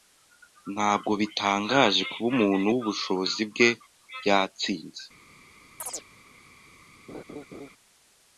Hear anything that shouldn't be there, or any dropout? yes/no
yes